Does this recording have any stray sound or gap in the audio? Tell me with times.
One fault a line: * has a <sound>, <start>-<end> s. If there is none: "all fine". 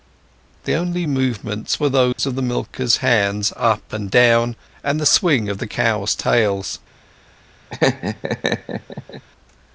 * has a dropout, 2.1-2.2 s
* has a laugh, 7.7-9.2 s